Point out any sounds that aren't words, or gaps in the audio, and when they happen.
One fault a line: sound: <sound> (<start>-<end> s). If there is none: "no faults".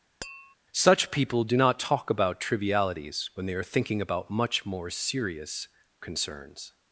sound: tap (0.2-0.6 s)